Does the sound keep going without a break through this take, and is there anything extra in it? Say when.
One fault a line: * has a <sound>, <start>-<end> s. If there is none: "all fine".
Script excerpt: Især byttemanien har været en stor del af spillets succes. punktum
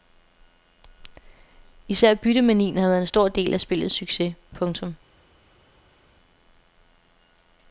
all fine